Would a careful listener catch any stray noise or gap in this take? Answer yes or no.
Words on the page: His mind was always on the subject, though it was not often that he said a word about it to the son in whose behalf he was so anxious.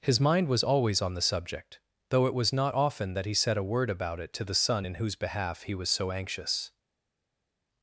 no